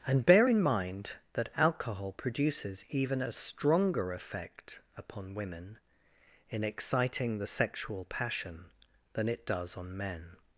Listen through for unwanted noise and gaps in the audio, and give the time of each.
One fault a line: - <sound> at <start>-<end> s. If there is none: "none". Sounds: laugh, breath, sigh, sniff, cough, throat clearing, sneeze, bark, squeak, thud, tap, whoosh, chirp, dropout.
none